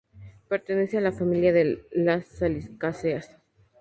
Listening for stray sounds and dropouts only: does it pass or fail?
pass